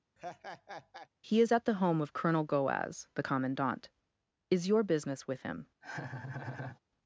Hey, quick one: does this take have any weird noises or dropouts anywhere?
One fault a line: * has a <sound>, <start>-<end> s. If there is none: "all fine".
* has a laugh, 0.2-1.1 s
* has a laugh, 5.8-6.8 s